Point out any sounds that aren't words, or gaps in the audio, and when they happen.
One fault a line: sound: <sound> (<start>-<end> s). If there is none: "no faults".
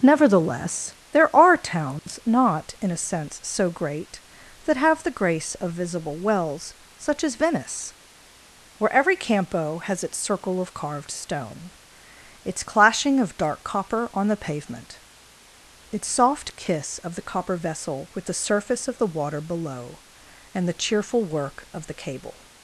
sound: dropout (2.0-2.1 s)